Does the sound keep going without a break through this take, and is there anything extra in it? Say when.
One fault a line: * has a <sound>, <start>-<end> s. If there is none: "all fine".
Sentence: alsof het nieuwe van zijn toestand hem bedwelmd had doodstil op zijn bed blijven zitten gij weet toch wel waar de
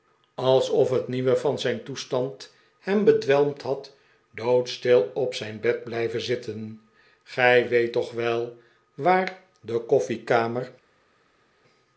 all fine